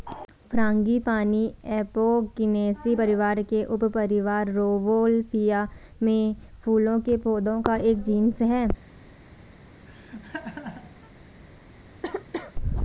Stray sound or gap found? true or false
true